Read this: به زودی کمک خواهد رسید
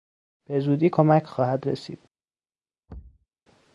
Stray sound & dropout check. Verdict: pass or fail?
fail